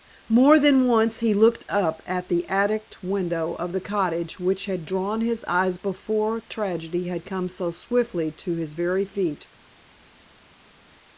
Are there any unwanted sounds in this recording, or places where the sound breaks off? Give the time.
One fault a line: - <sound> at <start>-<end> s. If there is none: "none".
none